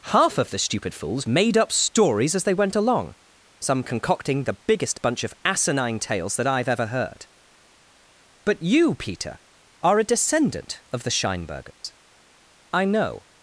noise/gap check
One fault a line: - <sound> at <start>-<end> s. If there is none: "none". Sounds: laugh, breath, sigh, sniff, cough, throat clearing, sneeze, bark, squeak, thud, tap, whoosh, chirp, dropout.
- dropout at 11.7-11.8 s